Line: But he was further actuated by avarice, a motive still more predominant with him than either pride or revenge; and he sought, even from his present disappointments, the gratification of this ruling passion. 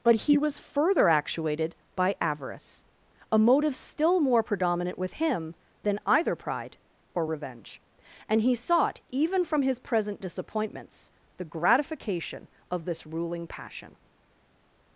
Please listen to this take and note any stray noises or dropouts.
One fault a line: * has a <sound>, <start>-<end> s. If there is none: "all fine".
all fine